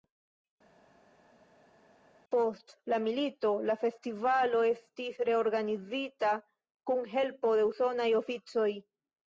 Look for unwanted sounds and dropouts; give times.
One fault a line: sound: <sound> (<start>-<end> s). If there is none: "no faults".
no faults